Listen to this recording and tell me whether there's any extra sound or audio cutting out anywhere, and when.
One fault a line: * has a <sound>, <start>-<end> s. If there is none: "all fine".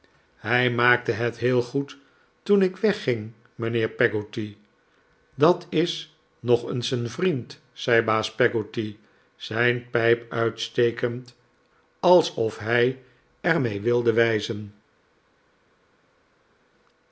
all fine